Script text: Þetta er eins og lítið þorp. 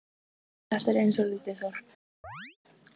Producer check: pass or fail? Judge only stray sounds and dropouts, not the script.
fail